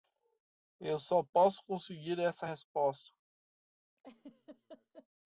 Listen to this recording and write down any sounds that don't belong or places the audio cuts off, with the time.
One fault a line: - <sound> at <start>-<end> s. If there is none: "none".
- laugh at 4.0-5.1 s